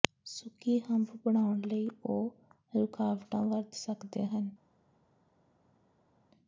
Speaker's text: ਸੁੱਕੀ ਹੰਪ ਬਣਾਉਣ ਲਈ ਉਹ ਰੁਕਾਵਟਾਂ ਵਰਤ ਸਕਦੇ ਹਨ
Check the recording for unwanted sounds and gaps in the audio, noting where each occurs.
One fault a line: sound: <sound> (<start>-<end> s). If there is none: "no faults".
no faults